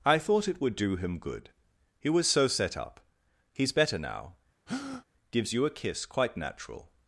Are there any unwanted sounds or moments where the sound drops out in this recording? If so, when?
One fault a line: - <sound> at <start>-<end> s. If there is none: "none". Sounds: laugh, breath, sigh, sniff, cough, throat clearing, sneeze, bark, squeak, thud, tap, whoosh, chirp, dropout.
- breath at 4.7-5.0 s